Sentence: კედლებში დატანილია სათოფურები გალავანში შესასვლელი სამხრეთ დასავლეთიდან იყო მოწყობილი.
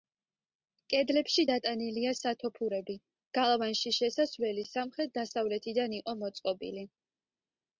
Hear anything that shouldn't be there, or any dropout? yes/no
no